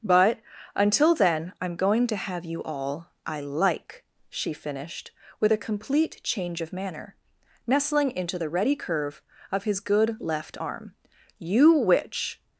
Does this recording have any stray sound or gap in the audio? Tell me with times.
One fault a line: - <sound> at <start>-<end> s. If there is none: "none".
none